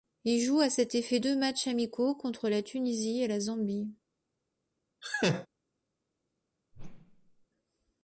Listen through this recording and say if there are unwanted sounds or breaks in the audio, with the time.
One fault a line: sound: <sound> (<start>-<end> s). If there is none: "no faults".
sound: laugh (5.0-5.5 s)
sound: whoosh (6.7-7.5 s)